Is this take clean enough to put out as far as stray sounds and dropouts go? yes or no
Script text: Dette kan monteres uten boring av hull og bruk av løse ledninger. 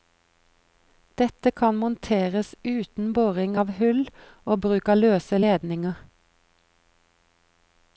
yes